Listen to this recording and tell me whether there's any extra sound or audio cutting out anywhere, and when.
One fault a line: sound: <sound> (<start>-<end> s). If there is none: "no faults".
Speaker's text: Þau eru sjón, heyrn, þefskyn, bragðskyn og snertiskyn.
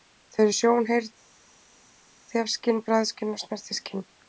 no faults